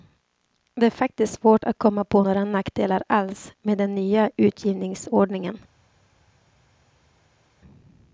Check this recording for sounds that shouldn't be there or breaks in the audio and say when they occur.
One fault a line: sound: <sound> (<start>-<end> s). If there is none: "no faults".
no faults